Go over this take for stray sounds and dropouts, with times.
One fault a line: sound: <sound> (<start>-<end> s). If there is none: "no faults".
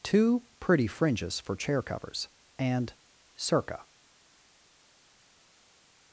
no faults